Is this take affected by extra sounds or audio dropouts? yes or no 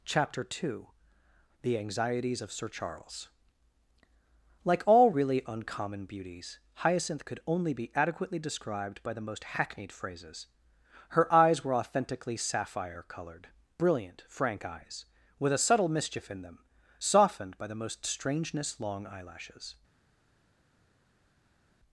no